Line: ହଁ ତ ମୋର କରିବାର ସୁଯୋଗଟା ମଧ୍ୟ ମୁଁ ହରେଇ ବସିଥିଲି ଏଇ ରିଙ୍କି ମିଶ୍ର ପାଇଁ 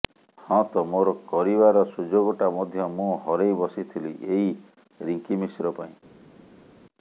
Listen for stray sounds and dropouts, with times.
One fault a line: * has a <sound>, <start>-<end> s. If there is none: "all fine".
all fine